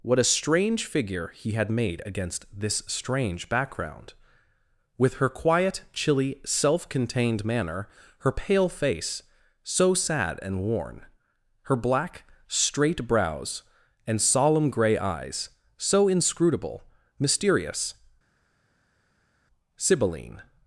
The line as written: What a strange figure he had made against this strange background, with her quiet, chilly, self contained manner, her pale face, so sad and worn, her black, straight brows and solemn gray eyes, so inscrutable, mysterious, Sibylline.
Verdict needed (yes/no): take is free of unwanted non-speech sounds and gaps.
yes